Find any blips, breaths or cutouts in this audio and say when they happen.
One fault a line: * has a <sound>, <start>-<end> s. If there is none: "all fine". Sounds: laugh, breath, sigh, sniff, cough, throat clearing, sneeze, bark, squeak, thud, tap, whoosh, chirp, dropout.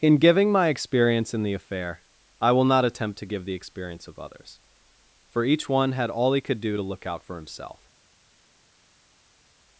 all fine